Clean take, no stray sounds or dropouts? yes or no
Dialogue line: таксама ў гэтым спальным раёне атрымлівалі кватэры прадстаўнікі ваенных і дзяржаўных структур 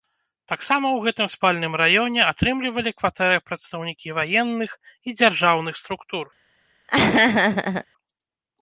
no